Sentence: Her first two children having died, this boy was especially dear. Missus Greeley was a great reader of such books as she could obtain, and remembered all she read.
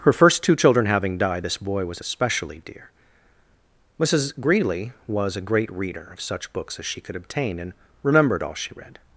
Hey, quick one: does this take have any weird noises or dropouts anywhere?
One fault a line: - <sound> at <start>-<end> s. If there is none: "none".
none